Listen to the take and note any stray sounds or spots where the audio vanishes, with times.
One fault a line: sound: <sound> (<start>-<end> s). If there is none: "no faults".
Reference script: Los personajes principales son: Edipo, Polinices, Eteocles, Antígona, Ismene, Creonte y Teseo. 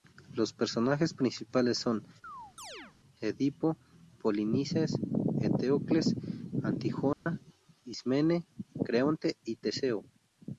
sound: chirp (2.2-3.0 s)
sound: dropout (7.1-7.3 s)